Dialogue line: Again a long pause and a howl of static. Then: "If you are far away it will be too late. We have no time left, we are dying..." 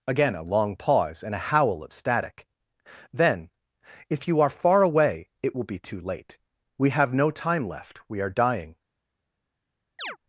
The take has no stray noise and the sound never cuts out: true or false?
false